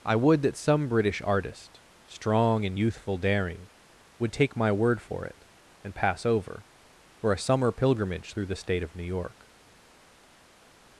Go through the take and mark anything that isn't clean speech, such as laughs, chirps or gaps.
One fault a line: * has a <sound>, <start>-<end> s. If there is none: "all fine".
all fine